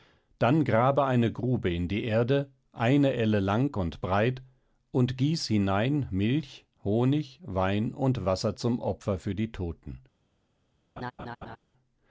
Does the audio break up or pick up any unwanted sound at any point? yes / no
yes